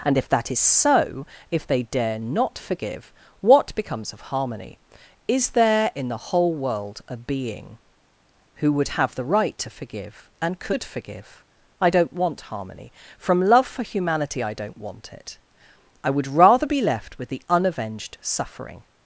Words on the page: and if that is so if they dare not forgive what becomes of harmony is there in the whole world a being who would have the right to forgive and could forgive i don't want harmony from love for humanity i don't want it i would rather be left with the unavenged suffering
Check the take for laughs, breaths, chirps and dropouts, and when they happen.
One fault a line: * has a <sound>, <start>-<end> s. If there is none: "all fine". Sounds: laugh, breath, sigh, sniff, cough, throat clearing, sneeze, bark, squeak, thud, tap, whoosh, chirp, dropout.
all fine